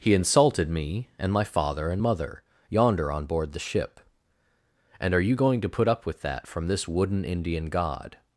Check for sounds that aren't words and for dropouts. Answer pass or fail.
pass